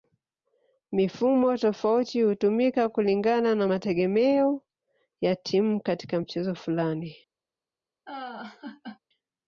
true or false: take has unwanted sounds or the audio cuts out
true